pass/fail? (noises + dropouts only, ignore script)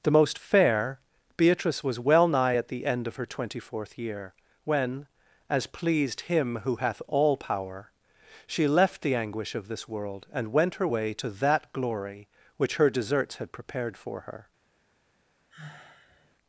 fail